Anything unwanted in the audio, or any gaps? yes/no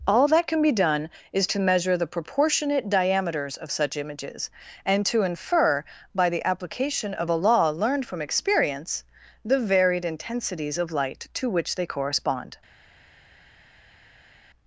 no